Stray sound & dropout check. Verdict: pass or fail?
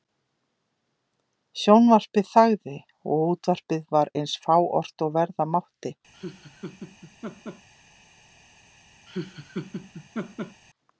fail